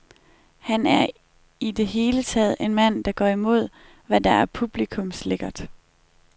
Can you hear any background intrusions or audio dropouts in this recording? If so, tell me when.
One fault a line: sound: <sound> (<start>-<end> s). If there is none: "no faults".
no faults